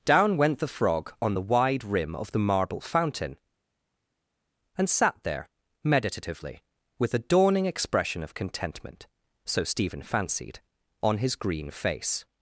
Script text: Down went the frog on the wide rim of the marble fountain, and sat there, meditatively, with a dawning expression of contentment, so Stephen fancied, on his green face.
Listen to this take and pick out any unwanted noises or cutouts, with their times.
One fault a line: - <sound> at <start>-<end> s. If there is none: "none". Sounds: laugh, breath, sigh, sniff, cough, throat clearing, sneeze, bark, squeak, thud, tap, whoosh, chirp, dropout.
none